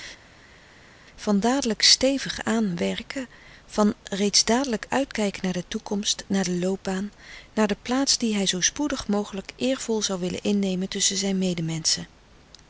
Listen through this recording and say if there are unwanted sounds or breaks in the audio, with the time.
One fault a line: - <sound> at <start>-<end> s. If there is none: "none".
none